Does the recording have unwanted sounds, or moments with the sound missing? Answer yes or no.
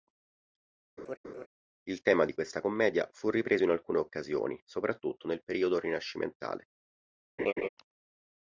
yes